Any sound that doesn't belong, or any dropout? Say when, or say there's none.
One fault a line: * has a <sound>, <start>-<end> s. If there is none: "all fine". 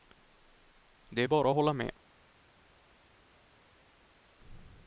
all fine